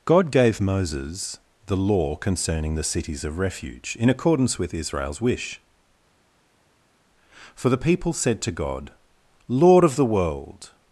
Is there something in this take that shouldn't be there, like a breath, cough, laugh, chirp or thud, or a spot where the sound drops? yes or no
no